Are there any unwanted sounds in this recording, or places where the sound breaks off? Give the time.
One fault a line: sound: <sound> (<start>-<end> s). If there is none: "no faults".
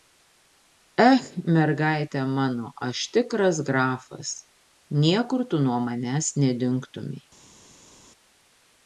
no faults